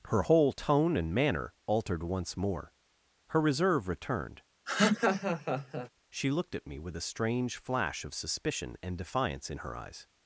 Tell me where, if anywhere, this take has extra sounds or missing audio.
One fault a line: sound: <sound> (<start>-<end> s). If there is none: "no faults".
sound: laugh (4.7-5.9 s)